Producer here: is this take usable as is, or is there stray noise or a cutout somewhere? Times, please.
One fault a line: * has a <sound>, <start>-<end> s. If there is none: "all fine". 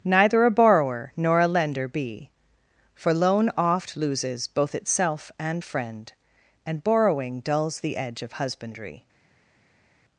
all fine